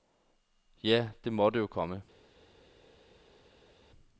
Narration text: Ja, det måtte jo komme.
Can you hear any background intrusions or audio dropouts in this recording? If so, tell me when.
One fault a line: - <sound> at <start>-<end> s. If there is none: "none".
none